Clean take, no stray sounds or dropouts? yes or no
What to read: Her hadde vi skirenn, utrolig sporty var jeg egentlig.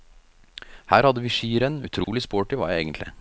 no